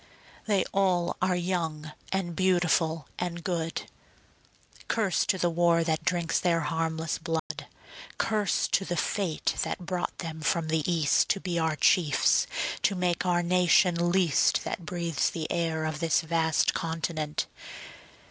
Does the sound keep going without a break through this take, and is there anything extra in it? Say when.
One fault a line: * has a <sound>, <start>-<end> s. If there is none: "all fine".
* has a dropout, 7.4-7.5 s